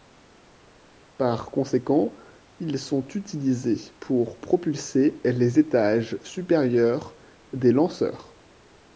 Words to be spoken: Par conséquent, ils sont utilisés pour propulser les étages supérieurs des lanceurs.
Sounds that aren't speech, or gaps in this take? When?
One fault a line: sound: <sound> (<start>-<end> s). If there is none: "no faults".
no faults